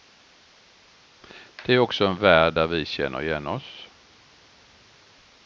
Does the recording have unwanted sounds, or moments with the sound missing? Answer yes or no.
no